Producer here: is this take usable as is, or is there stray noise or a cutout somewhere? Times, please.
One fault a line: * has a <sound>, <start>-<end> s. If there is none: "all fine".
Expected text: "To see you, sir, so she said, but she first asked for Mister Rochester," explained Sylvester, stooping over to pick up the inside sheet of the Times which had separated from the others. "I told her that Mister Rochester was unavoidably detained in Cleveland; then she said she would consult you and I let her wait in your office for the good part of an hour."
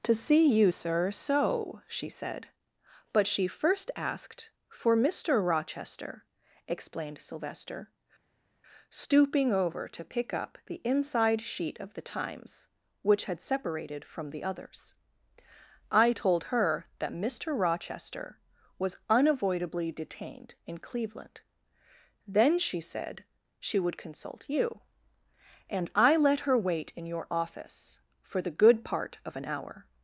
all fine